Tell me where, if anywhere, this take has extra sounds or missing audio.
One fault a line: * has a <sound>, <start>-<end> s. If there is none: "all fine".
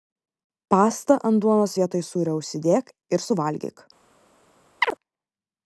* has a chirp, 4.8-4.9 s